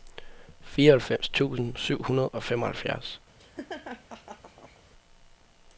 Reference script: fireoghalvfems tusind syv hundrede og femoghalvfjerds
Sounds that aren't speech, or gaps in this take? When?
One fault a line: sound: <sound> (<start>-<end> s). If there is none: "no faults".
sound: laugh (3.4-4.8 s)